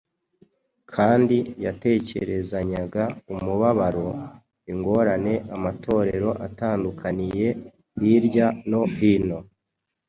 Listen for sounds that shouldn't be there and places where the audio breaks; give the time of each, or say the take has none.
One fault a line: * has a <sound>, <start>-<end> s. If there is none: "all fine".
all fine